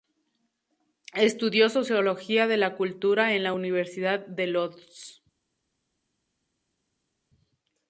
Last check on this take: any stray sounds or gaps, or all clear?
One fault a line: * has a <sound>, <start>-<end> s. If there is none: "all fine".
all fine